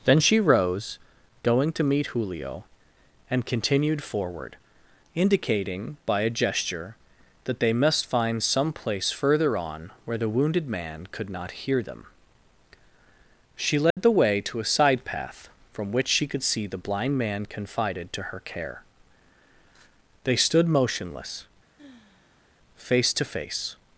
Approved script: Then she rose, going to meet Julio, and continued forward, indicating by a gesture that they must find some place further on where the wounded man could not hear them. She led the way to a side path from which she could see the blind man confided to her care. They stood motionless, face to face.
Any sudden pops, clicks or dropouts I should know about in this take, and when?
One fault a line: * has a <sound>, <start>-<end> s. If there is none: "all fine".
* has a dropout, 13.9-14.0 s
* has a sigh, 21.8-22.5 s